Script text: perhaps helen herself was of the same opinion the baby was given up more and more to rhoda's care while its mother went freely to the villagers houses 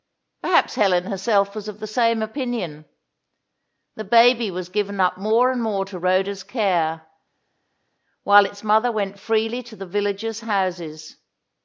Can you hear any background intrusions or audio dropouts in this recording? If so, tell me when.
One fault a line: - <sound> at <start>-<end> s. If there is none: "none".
none